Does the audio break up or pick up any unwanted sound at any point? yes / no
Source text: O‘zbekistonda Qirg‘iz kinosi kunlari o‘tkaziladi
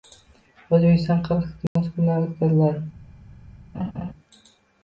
yes